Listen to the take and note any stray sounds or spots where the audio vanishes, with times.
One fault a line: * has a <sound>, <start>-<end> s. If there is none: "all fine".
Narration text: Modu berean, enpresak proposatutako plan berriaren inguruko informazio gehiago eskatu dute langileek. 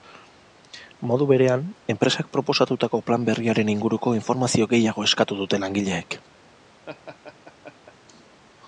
* has a laugh, 6.9-7.9 s